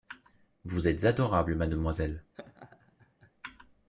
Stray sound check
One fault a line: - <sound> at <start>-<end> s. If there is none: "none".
- laugh at 2.3-3.3 s